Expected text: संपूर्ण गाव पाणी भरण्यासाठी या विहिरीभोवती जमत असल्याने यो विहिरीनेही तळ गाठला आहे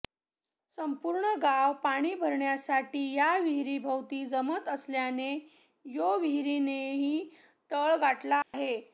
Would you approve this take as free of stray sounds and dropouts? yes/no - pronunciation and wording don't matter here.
no